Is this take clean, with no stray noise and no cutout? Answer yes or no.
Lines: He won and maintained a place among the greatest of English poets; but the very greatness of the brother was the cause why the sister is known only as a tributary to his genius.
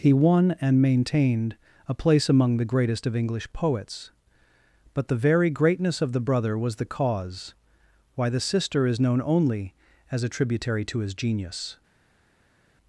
yes